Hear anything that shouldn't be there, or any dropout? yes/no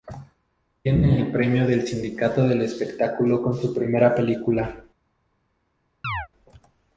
yes